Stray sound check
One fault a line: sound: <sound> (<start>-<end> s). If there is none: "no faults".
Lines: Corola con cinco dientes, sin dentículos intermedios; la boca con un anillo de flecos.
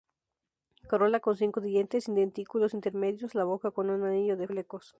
no faults